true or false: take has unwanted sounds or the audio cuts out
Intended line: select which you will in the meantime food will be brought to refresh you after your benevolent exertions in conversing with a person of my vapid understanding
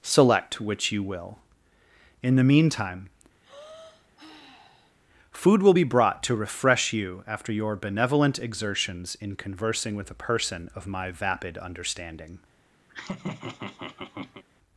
true